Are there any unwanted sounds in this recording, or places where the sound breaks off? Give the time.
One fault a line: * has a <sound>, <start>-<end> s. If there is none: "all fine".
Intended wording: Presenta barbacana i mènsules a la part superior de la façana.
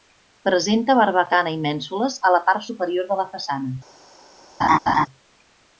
* has a laugh, 4.6-5.1 s